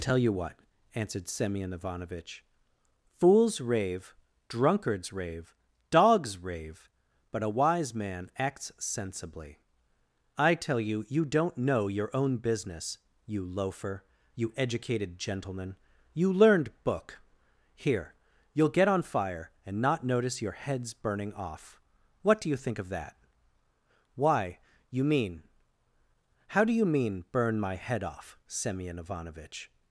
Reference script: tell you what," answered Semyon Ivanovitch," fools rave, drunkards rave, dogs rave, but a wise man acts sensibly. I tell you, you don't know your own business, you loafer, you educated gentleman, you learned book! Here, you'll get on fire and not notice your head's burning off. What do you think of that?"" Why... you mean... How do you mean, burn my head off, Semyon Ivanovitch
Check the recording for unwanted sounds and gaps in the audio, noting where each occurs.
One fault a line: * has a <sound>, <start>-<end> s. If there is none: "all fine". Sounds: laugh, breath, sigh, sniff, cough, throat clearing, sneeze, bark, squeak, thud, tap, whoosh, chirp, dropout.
all fine